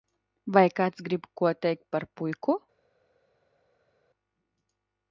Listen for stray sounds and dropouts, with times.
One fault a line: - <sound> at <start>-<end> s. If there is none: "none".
none